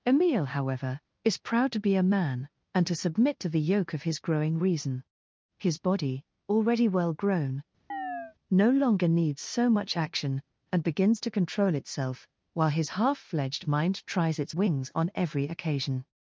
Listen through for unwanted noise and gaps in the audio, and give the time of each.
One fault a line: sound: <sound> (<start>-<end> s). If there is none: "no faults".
sound: chirp (7.9-8.4 s)